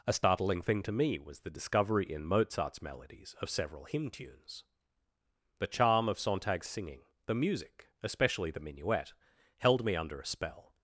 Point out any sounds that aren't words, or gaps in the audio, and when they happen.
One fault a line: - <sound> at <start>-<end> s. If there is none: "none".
none